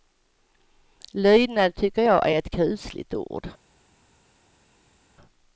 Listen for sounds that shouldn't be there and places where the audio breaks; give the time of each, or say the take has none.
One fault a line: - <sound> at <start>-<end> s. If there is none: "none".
none